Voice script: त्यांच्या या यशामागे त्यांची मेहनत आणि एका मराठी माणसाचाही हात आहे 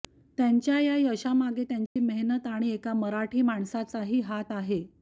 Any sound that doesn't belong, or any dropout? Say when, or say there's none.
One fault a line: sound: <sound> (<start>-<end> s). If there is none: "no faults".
sound: dropout (1.9-2.0 s)